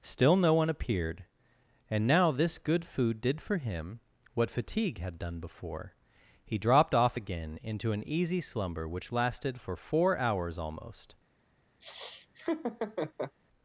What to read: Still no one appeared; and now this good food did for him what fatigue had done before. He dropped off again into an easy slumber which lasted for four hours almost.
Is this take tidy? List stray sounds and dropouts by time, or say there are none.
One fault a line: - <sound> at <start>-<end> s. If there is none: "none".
- laugh at 11.8-13.3 s